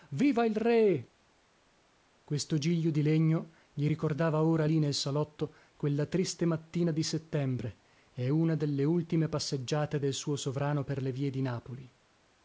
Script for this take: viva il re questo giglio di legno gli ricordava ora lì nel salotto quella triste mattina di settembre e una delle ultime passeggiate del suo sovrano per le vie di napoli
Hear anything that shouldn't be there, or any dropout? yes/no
no